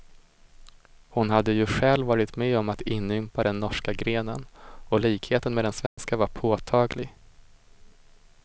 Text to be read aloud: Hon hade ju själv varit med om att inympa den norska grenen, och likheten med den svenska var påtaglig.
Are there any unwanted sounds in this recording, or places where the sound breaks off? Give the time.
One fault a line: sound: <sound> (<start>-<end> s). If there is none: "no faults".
sound: dropout (5.9-6.0 s)